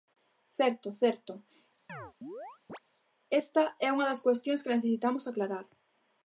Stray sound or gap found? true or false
true